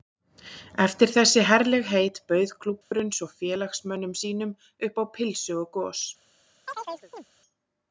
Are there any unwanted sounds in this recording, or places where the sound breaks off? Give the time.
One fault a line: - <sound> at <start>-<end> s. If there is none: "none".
- dropout at 2.8-2.9 s
- chirp at 6.7-7.2 s